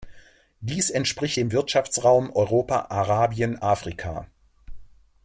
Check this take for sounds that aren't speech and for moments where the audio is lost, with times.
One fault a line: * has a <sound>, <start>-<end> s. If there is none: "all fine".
all fine